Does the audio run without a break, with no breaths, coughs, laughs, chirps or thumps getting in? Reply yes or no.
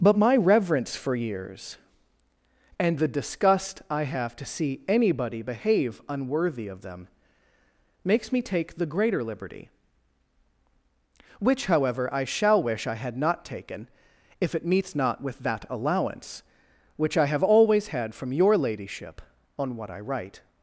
yes